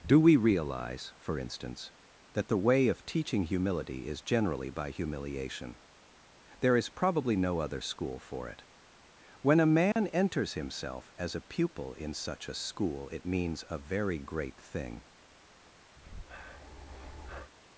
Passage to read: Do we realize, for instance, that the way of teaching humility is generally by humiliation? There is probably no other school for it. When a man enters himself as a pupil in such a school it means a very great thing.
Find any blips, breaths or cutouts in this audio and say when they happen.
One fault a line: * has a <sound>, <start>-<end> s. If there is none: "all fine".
* has a dropout, 9.9-10.0 s
* has a breath, 16.0-17.5 s